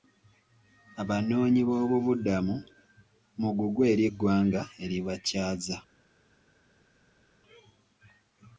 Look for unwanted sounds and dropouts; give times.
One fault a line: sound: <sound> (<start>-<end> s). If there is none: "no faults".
no faults